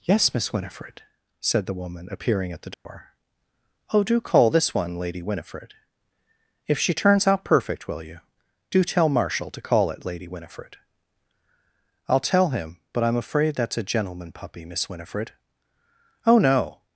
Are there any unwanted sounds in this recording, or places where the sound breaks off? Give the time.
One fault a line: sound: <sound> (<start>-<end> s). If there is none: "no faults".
sound: dropout (2.7-2.9 s)